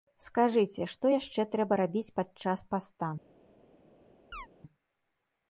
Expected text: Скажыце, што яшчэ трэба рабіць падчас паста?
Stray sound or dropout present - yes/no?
yes